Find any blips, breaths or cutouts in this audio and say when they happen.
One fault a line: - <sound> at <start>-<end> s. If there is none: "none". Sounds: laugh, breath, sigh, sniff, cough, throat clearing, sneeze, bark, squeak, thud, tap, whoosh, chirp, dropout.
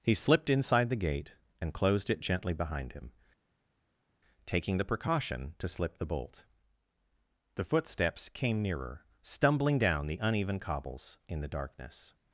none